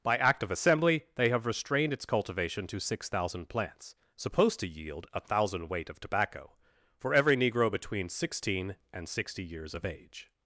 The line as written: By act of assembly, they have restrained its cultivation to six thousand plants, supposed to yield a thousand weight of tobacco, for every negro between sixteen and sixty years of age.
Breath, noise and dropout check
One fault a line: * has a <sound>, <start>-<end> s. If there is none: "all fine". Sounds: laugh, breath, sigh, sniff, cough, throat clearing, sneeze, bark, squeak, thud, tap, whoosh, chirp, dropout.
all fine